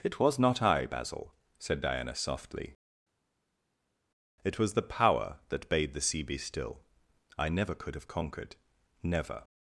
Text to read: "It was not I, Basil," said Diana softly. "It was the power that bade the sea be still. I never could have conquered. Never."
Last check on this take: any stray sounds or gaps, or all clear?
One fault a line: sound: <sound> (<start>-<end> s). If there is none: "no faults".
no faults